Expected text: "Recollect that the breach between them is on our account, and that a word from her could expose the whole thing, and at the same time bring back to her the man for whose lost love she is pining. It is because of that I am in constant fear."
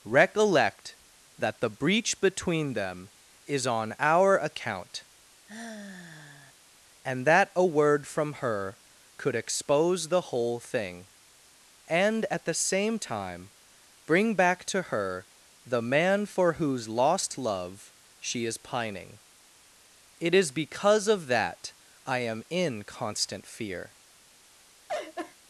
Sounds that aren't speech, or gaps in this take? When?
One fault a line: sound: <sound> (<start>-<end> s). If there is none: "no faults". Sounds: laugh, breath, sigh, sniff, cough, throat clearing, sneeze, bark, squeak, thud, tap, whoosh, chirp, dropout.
sound: sigh (5.5-6.5 s)
sound: laugh (24.9-25.4 s)